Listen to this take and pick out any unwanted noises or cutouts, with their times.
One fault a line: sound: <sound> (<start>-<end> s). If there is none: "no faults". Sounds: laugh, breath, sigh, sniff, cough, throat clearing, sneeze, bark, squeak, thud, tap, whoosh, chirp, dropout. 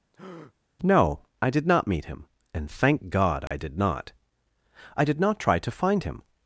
sound: breath (0.1-0.5 s)
sound: dropout (3.5-3.5 s)